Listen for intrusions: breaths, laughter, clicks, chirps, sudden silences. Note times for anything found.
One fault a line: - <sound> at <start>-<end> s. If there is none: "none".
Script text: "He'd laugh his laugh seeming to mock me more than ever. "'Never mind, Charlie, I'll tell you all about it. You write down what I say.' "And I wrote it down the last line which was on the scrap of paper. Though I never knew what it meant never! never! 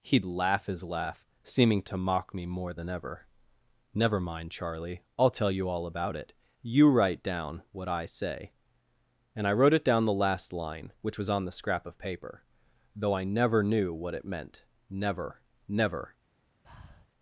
- breath at 16.6-17.1 s